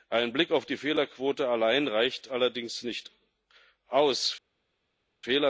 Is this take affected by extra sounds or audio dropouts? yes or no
no